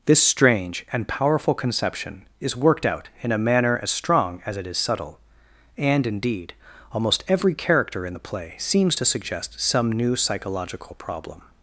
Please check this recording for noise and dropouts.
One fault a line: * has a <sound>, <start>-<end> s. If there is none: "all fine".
all fine